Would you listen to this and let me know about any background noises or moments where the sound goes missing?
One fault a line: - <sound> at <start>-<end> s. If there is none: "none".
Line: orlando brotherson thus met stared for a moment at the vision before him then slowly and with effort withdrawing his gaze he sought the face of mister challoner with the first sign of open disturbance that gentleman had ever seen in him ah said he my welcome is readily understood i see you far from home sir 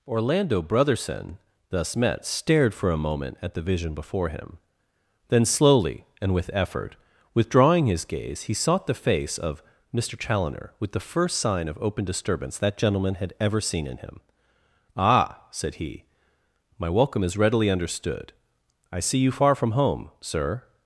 none